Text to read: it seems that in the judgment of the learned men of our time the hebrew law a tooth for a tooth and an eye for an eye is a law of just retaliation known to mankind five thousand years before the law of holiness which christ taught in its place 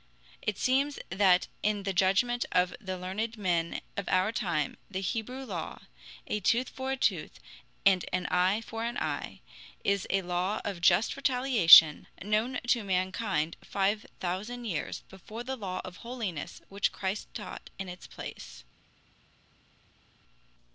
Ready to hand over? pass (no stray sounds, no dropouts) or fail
pass